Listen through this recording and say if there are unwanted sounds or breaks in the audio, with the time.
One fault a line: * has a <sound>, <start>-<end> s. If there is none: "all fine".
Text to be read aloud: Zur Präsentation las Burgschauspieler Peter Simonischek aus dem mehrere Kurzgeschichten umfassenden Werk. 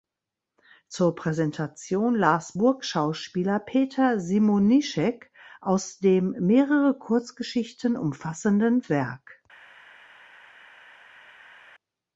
all fine